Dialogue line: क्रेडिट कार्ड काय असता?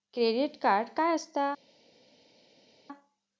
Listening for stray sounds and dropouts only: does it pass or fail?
pass